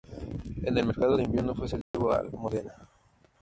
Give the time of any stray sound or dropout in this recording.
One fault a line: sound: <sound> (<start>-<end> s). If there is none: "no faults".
sound: dropout (1.8-1.9 s)